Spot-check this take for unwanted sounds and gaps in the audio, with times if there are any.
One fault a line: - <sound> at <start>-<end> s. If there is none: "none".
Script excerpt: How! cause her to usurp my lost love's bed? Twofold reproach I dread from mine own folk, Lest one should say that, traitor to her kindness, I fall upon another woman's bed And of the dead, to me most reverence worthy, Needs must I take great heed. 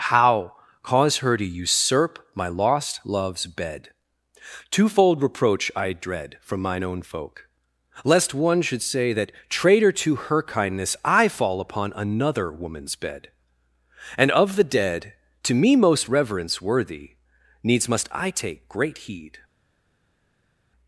none